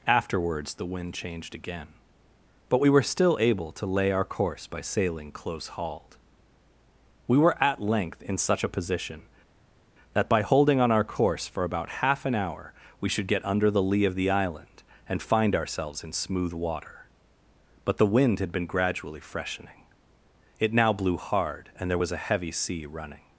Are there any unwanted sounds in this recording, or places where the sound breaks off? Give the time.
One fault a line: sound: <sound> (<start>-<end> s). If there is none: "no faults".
no faults